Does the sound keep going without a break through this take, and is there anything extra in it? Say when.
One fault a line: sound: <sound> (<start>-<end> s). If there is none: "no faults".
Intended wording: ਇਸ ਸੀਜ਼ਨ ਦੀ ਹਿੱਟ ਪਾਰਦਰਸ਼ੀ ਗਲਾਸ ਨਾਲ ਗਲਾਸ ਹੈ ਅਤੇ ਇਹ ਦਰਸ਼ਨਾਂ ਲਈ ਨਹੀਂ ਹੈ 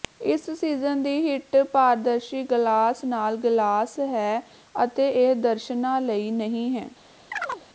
sound: chirp (7.3-7.6 s)